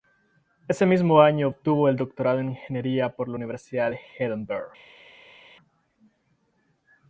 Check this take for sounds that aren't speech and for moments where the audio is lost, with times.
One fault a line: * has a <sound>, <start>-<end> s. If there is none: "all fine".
all fine